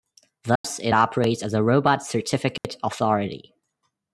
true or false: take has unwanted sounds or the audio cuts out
true